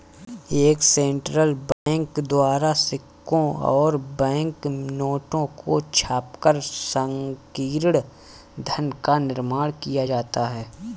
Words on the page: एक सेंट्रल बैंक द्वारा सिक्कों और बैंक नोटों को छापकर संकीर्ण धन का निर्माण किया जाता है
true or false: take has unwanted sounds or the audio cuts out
true